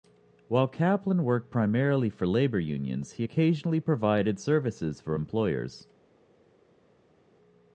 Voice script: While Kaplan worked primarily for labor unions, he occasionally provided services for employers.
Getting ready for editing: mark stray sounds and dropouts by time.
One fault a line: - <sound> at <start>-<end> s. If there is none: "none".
none